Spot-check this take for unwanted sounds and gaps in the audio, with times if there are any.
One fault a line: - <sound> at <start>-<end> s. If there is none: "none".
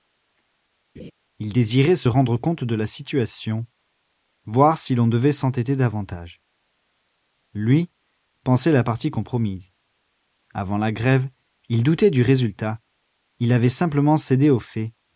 - laugh at 1.0-1.1 s